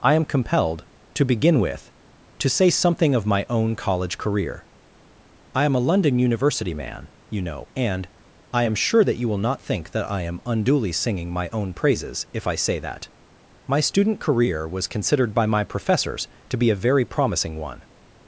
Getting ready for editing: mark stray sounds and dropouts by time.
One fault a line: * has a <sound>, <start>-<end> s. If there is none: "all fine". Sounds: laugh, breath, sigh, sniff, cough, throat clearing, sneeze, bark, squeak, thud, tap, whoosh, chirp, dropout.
all fine